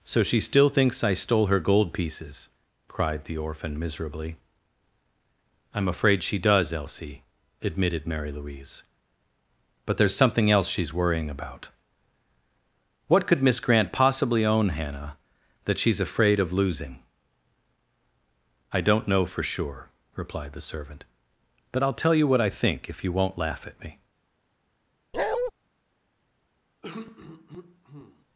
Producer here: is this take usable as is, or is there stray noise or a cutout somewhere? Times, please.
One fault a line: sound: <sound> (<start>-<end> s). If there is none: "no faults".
sound: bark (25.1-25.5 s)
sound: throat clearing (26.8-28.3 s)